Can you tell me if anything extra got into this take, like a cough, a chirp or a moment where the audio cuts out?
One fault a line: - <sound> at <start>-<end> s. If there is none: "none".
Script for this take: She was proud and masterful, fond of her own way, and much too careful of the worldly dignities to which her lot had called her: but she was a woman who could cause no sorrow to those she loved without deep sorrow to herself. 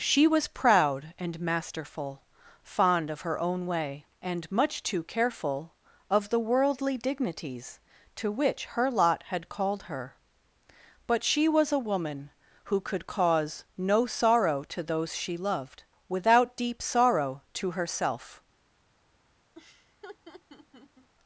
- laugh at 19.5-21.1 s